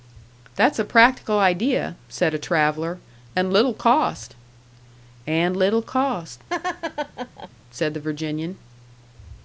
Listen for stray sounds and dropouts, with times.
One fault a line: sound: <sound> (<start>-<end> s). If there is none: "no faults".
sound: laugh (6.5-7.5 s)